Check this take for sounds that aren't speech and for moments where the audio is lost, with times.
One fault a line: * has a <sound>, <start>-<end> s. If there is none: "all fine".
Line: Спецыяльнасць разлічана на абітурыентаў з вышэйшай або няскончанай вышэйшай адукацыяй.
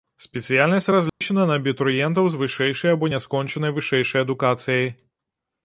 * has a dropout, 1.1-1.2 s